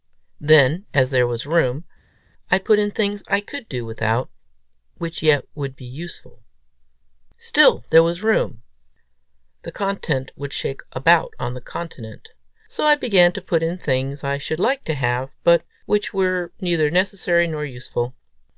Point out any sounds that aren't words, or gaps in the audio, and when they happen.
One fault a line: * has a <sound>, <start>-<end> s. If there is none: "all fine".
all fine